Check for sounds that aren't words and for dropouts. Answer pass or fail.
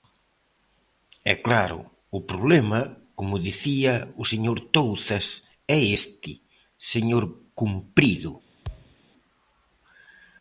fail